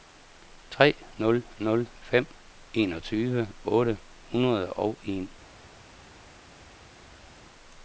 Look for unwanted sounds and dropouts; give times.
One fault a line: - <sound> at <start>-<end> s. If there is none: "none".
none